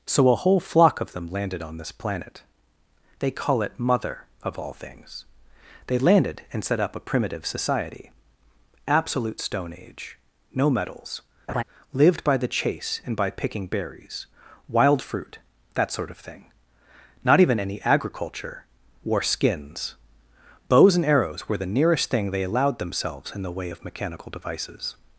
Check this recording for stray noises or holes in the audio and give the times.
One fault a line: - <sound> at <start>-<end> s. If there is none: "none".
- laugh at 11.5-11.6 s